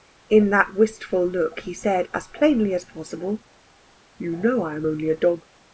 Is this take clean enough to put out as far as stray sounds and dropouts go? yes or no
yes